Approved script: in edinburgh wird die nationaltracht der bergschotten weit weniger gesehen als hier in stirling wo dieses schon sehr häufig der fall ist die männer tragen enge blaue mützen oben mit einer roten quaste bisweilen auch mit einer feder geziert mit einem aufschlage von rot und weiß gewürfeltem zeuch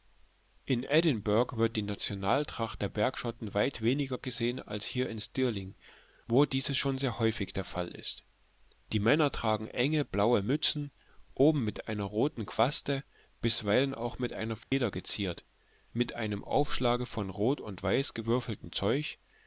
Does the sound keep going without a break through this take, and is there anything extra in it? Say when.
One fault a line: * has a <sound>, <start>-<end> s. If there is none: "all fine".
* has a dropout, 14.6-14.7 s